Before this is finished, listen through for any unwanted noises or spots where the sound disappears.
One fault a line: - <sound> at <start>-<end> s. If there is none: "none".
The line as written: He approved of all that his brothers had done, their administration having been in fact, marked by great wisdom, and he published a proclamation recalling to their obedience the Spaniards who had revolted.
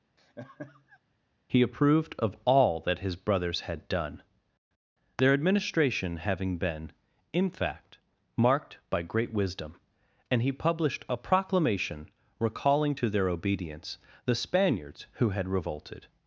- laugh at 0.2-1.0 s